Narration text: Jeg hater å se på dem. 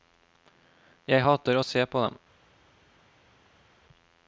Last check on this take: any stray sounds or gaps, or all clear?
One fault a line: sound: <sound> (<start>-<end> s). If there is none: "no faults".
no faults